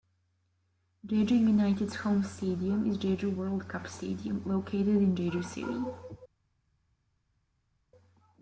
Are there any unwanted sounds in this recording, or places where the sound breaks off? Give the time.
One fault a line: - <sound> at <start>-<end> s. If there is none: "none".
none